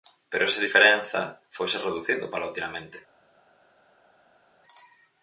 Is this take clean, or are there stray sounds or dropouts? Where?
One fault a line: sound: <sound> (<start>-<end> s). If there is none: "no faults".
no faults